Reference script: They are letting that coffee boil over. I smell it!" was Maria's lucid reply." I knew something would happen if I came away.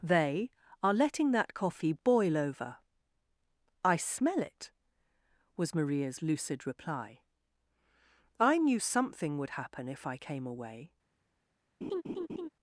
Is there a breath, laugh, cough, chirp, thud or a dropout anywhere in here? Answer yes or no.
yes